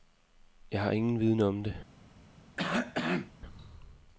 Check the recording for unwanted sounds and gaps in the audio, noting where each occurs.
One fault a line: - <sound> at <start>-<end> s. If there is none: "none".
- cough at 2.6-3.3 s